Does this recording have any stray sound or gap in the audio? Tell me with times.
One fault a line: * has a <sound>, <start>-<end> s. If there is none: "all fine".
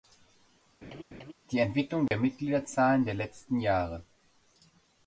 * has a laugh, 0.8-1.3 s
* has a dropout, 2.1-2.1 s